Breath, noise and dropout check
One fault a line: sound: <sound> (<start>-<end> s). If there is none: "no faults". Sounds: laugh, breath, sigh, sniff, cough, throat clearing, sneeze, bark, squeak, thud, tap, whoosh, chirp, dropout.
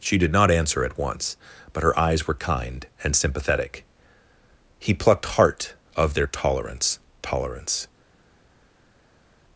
no faults